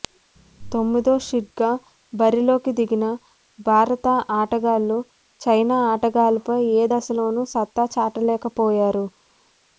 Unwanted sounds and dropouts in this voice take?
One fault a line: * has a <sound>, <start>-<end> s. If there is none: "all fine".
all fine